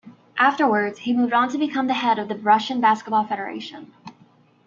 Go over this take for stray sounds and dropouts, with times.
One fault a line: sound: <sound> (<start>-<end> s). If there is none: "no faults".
no faults